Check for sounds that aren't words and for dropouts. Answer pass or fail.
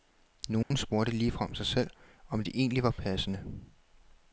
fail